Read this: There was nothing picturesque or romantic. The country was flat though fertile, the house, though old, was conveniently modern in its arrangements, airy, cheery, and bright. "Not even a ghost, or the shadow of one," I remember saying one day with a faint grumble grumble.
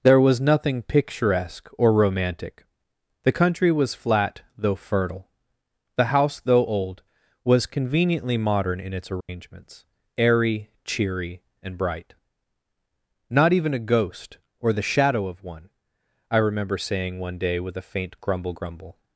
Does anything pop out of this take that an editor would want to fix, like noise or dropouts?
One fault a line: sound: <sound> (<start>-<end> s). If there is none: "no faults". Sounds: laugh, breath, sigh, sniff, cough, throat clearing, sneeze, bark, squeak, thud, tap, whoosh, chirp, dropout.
sound: dropout (9.2-9.3 s)